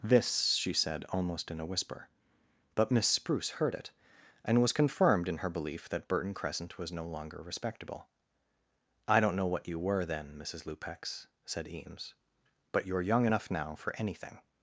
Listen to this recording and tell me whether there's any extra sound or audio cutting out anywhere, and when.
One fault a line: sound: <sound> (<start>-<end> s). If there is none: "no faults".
no faults